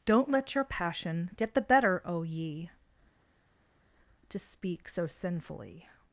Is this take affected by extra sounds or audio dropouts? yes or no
no